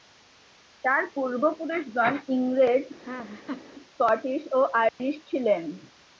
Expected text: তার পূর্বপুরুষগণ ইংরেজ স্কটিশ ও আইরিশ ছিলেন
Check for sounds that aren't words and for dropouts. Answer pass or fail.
fail